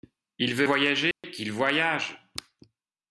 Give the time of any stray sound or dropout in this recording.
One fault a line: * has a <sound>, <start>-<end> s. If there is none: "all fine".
* has a dropout, 1.1-1.2 s